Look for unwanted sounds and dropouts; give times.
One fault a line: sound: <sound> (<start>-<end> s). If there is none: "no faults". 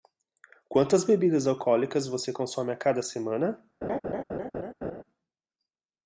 sound: laugh (3.8-5.0 s)